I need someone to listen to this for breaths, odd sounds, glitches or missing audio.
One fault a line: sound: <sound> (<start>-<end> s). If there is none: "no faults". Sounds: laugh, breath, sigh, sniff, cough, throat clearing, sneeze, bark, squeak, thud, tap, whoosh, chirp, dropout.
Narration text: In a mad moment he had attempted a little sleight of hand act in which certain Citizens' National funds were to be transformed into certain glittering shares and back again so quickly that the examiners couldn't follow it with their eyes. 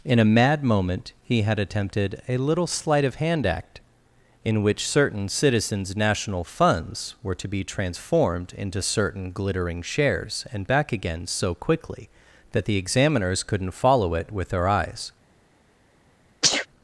sound: sneeze (16.4-16.7 s)